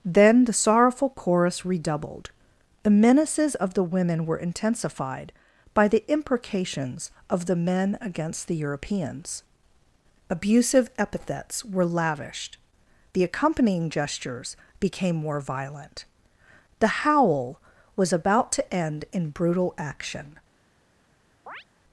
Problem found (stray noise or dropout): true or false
true